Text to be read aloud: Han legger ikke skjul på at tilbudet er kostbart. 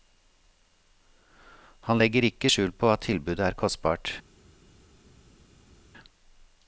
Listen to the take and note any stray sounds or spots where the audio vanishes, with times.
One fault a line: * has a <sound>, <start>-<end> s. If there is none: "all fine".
all fine